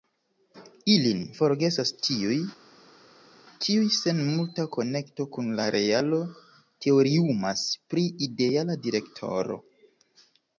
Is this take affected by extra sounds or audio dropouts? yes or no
no